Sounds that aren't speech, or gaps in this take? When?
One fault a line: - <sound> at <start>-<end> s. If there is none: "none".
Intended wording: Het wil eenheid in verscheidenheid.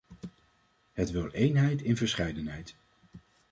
none